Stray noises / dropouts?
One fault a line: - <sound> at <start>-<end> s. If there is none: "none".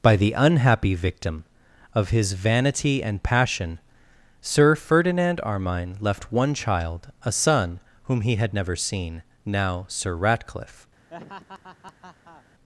- laugh at 11.1-12.4 s